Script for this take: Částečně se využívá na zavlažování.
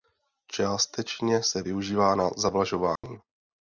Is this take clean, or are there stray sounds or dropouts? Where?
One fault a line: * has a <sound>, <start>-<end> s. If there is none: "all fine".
* has a dropout, 3.0-3.0 s